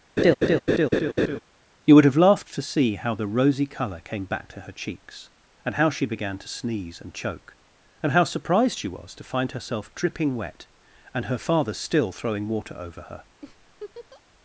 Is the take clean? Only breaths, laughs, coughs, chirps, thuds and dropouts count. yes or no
no